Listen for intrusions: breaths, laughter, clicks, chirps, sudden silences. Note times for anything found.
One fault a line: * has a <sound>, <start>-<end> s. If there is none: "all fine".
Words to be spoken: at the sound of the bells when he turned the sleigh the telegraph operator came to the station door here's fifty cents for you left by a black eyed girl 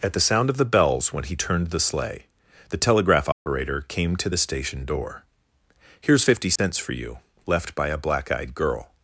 * has a dropout, 3.3-3.5 s
* has a dropout, 6.6-6.6 s